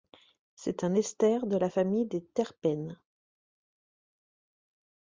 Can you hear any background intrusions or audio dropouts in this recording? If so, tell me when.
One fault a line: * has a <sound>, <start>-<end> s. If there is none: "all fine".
all fine